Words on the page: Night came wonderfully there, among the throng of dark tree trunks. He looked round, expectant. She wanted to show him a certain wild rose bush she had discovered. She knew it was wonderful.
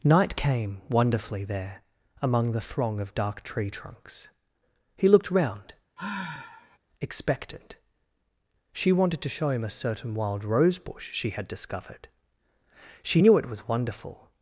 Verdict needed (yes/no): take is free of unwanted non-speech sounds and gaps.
no